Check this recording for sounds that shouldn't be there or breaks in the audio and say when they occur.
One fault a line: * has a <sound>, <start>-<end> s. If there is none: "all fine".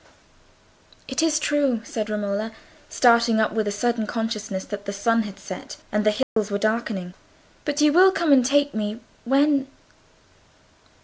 * has a dropout, 6.2-6.4 s